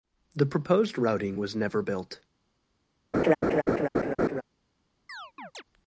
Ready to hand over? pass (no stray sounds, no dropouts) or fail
fail